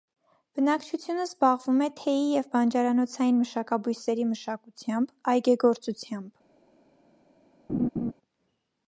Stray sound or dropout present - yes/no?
yes